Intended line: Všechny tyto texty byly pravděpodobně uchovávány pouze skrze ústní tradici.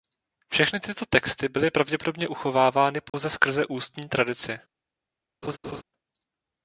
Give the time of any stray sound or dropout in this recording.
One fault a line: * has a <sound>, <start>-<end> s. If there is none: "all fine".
* has a dropout, 3.1-3.1 s
* has a laugh, 5.4-5.8 s